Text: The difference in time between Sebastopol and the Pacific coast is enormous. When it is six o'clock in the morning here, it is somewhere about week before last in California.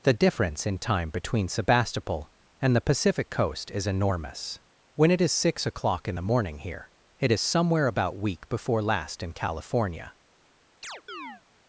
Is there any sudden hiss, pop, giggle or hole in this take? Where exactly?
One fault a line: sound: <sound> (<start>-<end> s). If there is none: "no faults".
sound: chirp (10.8-11.4 s)